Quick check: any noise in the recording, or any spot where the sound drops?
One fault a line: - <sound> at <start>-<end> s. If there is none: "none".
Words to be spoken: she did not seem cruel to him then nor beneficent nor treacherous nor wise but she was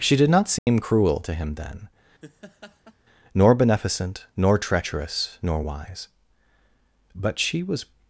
- dropout at 0.6-0.7 s
- laugh at 2.2-3.0 s